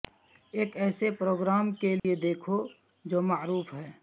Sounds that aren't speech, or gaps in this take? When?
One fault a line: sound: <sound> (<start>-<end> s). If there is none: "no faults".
sound: dropout (2.0-2.0 s)